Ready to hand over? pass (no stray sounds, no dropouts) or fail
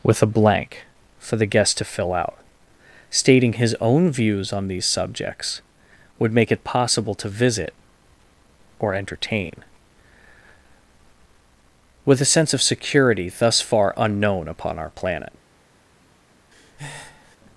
fail